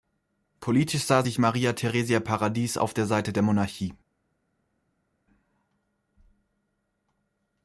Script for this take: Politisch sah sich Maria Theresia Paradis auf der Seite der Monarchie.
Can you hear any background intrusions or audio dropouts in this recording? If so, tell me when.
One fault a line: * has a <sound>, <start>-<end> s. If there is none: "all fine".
all fine